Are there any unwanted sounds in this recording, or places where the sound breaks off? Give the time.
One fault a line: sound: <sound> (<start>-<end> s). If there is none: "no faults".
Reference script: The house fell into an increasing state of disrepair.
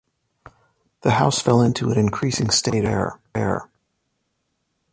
no faults